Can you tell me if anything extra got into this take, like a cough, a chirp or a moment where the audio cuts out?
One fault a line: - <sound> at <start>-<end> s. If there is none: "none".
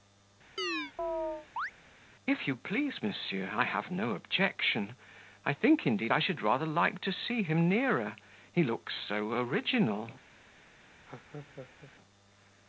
- chirp at 0.6-1.7 s
- laugh at 11.1-11.9 s